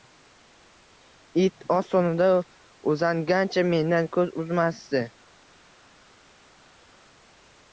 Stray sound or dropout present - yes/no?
no